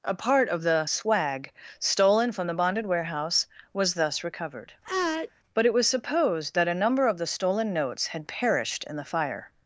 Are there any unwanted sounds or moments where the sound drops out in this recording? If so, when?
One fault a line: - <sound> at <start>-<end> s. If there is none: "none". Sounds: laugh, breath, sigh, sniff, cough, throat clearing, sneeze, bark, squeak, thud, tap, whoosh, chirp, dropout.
- sneeze at 4.8-5.3 s